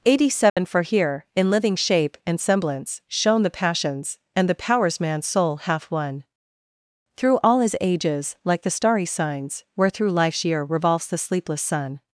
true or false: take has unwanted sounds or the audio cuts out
true